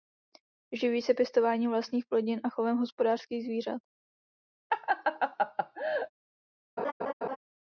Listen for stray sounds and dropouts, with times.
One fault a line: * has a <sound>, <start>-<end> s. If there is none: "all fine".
* has a laugh, 4.7-6.1 s
* has a laugh, 6.8-7.4 s